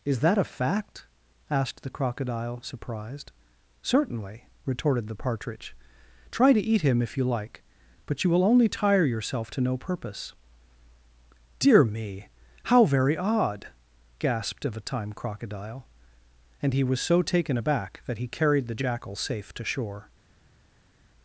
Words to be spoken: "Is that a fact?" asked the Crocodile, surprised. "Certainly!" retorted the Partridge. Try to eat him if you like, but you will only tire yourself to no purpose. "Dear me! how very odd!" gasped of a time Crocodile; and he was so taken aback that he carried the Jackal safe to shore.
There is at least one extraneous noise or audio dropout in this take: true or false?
false